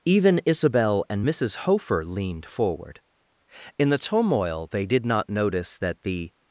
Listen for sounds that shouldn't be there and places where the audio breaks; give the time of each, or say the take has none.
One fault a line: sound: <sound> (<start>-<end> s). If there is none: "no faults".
no faults